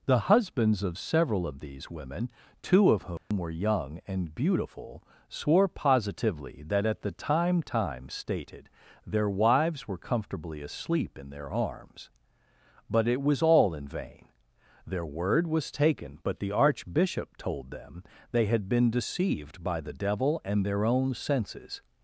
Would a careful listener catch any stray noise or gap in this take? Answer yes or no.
yes